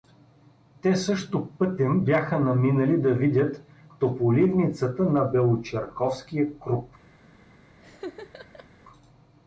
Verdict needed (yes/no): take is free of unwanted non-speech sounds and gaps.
no